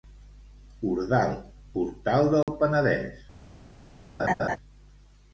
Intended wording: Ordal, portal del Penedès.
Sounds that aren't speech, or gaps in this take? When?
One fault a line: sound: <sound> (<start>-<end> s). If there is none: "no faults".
sound: dropout (2.4-2.5 s)
sound: laugh (4.2-4.6 s)